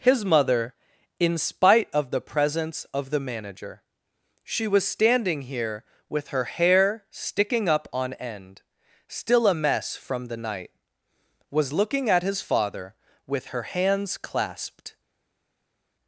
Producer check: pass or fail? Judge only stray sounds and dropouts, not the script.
pass